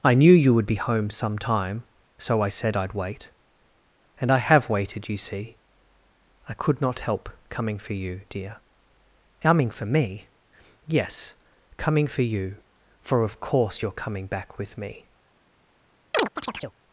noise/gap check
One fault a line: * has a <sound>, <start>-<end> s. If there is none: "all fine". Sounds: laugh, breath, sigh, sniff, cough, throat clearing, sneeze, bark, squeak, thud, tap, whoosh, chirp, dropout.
* has a chirp, 16.1-16.8 s